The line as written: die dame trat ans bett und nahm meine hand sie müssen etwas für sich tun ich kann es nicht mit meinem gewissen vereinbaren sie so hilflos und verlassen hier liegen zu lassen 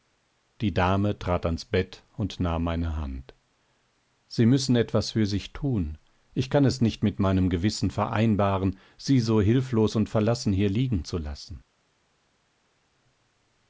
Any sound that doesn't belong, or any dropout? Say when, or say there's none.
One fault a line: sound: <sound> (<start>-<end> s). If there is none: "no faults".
no faults